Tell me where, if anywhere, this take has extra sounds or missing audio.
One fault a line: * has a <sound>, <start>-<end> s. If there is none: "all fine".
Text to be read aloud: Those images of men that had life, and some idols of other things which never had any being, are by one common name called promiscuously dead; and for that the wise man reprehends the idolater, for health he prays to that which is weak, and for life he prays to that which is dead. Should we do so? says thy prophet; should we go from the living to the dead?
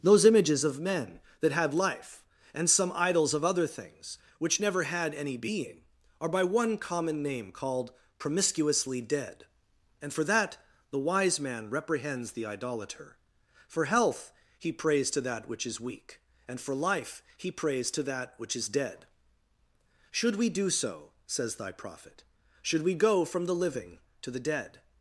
all fine